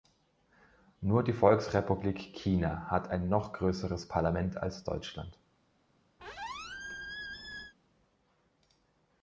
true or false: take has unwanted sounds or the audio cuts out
true